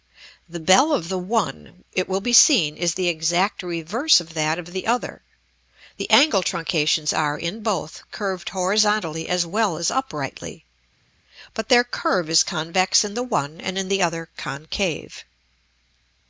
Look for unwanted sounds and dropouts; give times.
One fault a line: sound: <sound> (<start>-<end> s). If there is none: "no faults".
no faults